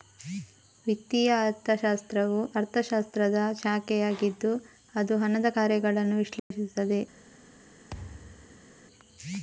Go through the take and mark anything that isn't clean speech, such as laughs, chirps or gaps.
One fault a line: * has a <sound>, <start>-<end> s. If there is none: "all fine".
* has a dropout, 6.4-6.5 s
* has a thud, 7.9-8.7 s